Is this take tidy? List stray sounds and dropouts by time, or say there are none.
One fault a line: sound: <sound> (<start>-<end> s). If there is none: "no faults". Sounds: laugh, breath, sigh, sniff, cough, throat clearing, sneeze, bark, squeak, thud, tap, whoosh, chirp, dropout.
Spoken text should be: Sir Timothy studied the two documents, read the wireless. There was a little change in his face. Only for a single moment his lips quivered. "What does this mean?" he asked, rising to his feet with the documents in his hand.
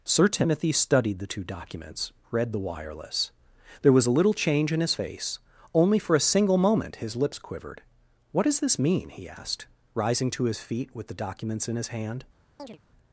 sound: chirp (12.6-12.8 s)